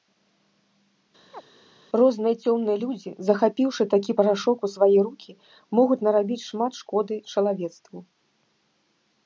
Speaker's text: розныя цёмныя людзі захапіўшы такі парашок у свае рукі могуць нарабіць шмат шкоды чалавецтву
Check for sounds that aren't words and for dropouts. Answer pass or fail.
fail